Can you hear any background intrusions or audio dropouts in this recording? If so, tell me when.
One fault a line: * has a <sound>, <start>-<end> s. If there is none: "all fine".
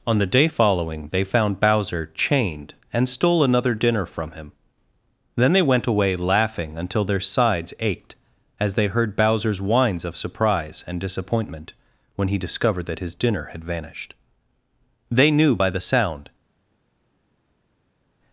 all fine